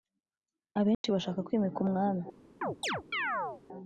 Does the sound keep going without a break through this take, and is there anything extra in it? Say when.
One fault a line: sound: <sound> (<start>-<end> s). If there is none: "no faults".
sound: dropout (0.9-1.0 s)
sound: chirp (2.6-3.6 s)